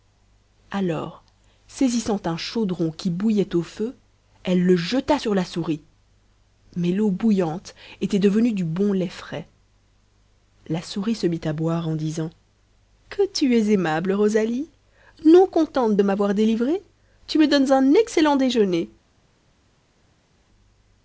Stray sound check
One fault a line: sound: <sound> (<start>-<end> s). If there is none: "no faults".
no faults